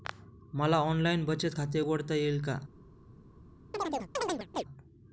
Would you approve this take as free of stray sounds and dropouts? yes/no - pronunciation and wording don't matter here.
no